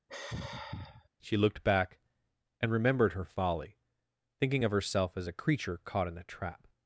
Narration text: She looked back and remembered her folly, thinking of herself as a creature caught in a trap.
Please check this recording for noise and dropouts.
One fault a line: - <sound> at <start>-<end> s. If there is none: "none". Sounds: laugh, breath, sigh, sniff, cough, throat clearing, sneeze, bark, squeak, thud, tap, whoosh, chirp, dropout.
- sigh at 0.1-1.1 s